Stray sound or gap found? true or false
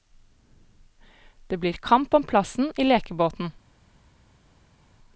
false